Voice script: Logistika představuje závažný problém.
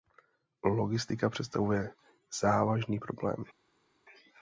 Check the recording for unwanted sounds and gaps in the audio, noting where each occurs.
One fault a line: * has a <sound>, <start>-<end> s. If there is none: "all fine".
all fine